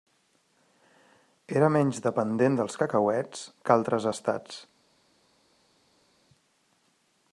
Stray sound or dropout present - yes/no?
no